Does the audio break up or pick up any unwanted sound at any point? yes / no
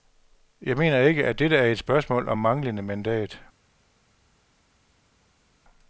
no